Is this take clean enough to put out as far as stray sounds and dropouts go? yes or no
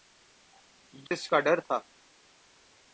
no